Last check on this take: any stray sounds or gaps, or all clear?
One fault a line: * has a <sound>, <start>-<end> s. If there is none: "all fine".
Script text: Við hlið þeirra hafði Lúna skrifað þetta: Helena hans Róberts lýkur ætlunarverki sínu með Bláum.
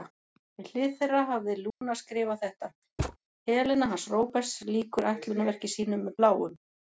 * has a dropout, 1.7-1.8 s
* has a thud, 3.0-3.2 s